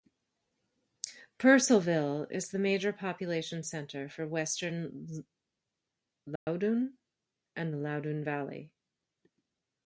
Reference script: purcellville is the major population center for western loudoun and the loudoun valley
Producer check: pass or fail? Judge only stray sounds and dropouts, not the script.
fail